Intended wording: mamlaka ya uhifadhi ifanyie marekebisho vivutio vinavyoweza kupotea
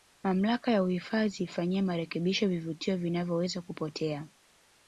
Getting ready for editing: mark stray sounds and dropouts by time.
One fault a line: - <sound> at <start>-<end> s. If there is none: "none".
none